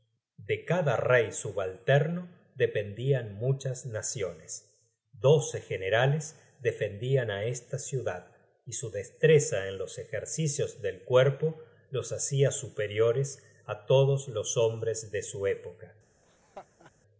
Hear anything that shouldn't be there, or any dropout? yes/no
yes